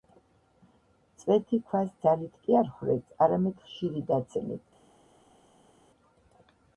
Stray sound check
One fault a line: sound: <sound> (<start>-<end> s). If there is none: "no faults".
no faults